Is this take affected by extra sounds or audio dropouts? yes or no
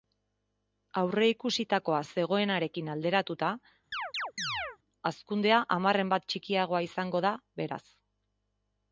yes